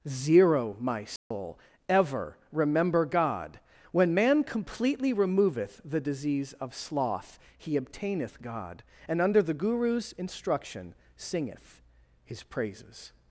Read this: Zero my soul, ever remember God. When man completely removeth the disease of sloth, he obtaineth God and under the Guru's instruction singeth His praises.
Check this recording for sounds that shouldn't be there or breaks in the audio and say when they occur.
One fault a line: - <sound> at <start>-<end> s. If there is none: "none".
- dropout at 1.2-1.3 s